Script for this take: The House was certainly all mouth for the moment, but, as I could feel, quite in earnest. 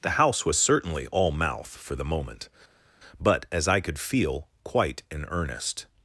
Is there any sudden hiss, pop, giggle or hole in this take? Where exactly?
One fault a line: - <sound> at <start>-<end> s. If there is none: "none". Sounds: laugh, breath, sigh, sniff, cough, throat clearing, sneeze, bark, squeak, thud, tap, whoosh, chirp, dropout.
none